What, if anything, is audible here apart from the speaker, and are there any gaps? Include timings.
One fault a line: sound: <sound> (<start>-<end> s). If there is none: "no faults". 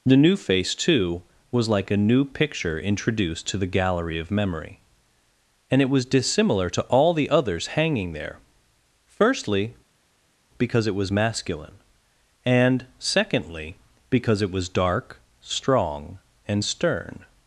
no faults